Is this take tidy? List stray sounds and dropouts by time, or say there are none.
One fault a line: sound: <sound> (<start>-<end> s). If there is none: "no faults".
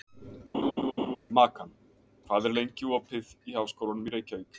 sound: laugh (0.5-1.2 s)